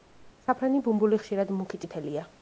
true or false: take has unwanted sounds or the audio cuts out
false